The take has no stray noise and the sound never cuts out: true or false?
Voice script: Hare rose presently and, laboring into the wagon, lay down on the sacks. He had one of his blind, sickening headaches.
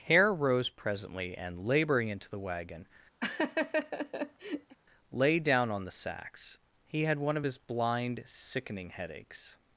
false